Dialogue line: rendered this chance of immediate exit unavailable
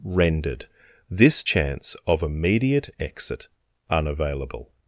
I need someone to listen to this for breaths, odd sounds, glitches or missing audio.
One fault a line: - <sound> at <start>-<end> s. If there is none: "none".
none